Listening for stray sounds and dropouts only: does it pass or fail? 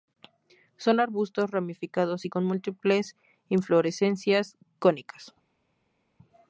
pass